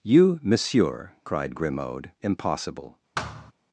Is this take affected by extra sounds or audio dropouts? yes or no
yes